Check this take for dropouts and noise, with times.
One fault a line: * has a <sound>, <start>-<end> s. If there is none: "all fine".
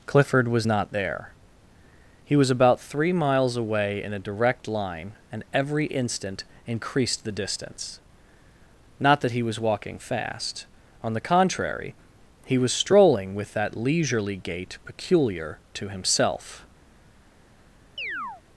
* has a chirp, 18.0-18.4 s